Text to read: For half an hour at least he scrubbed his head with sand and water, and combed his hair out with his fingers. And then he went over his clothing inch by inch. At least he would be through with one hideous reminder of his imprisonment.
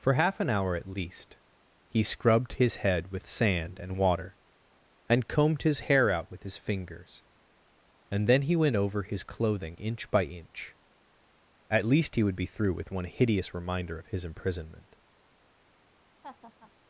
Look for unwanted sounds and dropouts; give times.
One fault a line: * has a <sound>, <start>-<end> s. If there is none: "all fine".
* has a laugh, 16.2-16.7 s